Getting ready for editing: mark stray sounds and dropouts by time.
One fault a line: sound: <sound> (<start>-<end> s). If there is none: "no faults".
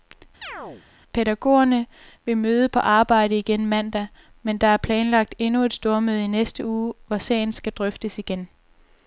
sound: chirp (0.4-0.9 s)